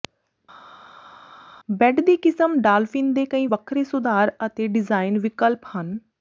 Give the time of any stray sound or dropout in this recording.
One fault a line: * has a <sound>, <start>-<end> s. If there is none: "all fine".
all fine